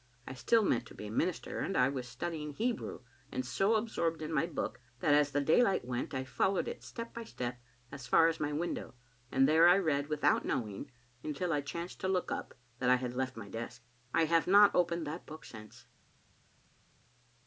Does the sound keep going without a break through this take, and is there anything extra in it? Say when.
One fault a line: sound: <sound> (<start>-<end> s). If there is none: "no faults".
no faults